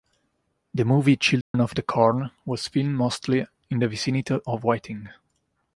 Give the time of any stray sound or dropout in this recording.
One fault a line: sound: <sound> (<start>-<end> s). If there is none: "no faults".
sound: dropout (1.4-1.5 s)